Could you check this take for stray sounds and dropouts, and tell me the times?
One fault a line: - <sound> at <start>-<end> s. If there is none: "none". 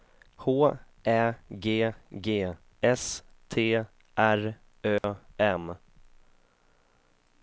- dropout at 5.0-5.0 s